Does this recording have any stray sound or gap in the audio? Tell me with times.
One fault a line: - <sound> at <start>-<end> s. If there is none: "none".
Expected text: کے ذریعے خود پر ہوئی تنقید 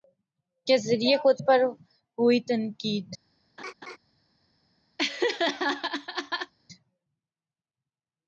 - laugh at 3.6-4.0 s
- laugh at 5.0-6.5 s